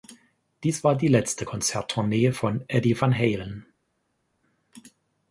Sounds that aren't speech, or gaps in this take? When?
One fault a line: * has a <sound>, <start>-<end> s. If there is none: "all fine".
all fine